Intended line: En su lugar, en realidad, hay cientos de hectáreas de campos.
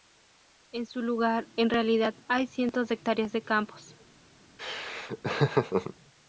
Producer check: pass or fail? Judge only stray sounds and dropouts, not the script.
fail